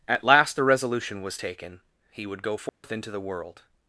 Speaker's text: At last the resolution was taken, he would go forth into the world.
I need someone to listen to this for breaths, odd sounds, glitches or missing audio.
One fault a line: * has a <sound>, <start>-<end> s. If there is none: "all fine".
* has a dropout, 2.7-2.8 s